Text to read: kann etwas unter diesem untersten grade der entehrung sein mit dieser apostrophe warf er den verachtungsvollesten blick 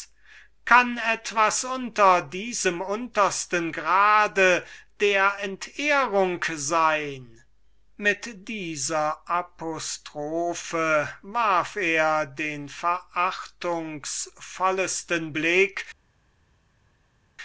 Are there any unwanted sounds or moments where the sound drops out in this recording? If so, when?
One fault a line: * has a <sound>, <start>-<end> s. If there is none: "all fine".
all fine